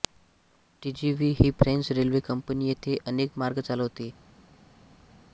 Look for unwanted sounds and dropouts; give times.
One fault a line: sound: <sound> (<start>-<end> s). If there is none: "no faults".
no faults